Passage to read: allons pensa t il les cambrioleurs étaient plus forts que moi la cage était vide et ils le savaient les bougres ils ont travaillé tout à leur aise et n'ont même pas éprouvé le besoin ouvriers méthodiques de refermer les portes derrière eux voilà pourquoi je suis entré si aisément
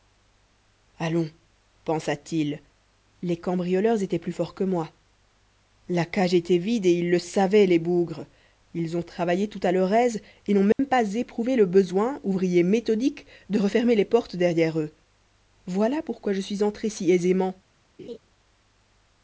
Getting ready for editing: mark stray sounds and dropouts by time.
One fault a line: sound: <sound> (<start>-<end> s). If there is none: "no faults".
sound: dropout (10.7-10.8 s)
sound: laugh (18.0-18.2 s)